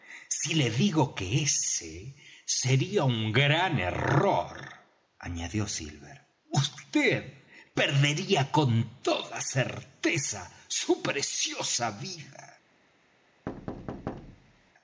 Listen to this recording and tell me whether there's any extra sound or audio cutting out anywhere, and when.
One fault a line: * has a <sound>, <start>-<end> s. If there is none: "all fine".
* has a thud, 13.5-14.7 s